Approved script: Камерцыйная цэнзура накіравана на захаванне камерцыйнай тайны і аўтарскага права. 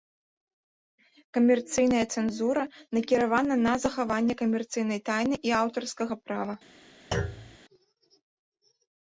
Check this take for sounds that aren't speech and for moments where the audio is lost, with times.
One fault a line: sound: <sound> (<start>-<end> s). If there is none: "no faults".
sound: thud (7.1-7.6 s)